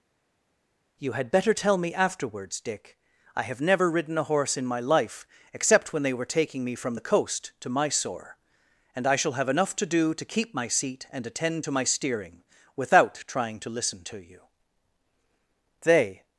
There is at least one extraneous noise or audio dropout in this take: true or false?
false